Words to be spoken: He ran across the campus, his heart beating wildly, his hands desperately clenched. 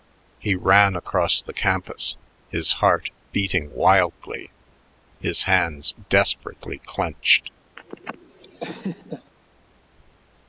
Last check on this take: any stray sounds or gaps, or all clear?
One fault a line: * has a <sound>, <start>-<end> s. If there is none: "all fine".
* has a laugh, 7.8-9.3 s